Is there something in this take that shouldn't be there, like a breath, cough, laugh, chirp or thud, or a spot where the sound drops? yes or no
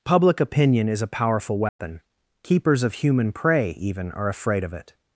yes